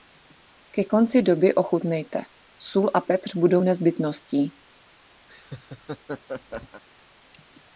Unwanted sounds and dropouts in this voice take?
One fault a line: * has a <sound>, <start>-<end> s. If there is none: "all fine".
* has a laugh, 5.3-6.8 s